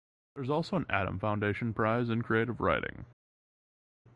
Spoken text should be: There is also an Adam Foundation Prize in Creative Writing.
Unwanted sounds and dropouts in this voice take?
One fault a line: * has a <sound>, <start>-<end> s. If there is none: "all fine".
all fine